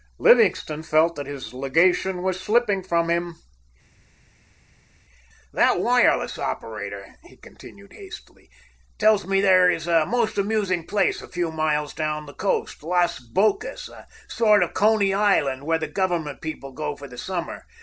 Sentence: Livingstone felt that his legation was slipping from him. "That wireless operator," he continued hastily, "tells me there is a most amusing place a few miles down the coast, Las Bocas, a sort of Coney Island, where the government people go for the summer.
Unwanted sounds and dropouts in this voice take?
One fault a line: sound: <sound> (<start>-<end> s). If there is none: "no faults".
no faults